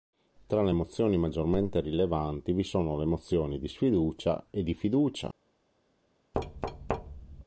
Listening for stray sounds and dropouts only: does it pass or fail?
fail